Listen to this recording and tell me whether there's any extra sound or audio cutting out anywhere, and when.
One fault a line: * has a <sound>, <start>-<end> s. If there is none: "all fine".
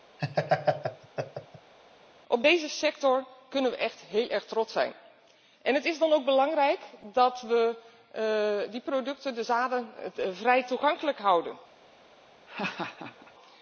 * has a laugh, 0.2-1.7 s
* has a laugh, 12.5-13.3 s